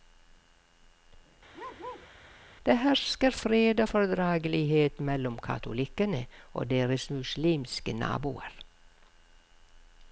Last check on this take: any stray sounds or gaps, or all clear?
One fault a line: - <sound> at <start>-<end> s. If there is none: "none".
- bark at 1.5-2.1 s